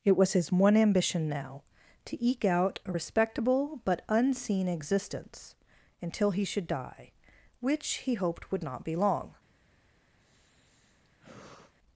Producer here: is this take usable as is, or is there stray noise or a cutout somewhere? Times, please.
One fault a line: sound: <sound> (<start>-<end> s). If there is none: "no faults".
sound: sigh (10.2-11.7 s)